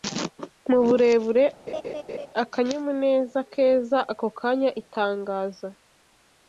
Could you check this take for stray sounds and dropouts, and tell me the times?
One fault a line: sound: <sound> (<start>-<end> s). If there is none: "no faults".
sound: laugh (1.7-2.3 s)